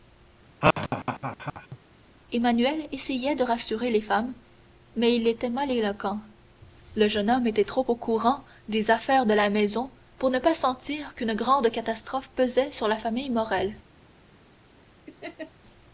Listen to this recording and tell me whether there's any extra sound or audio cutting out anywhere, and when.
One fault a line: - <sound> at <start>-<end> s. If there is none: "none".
- laugh at 0.6-1.8 s
- laugh at 15.1-15.5 s